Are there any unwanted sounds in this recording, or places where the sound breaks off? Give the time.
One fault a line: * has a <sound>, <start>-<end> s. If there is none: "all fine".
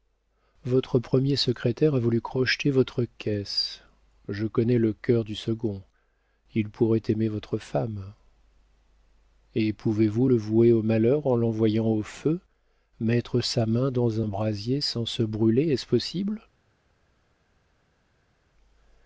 all fine